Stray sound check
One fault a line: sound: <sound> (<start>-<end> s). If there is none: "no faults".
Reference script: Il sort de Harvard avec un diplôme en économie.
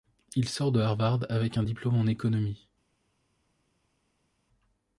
no faults